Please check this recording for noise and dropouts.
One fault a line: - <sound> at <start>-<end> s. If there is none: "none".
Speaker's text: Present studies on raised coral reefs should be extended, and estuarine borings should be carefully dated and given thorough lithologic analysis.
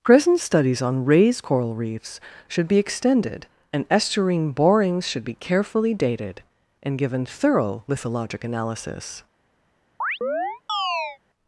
- chirp at 10.0-11.2 s